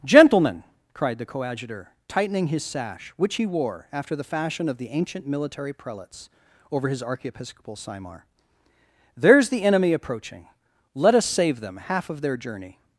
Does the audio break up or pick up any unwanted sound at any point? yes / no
no